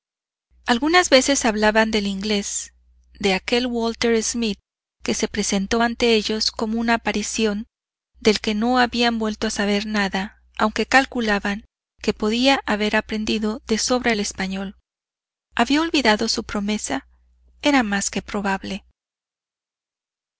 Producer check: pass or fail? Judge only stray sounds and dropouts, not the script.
pass